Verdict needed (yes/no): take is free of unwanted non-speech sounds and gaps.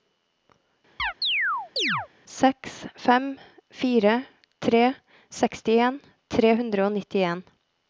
no